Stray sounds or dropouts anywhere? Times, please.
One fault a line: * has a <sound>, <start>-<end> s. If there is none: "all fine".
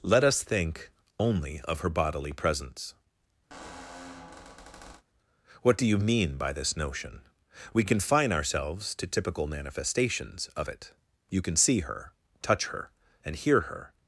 * has a squeak, 3.5-5.0 s